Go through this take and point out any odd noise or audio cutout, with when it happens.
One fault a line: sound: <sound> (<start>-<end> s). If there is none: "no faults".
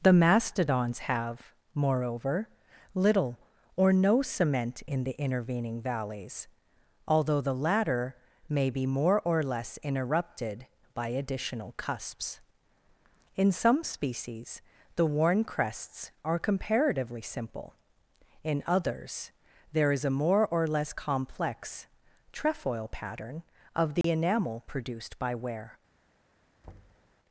sound: dropout (24.0-24.0 s)
sound: thud (26.6-27.1 s)